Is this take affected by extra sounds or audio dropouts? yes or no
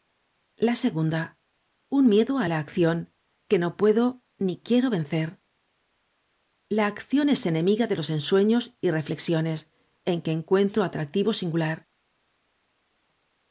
no